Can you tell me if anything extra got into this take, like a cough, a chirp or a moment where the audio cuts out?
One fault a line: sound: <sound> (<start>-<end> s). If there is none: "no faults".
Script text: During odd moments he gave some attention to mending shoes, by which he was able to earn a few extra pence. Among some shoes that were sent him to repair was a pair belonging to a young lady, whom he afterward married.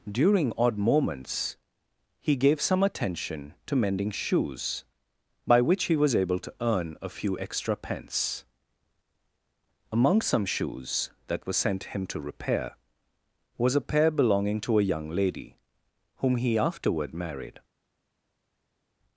no faults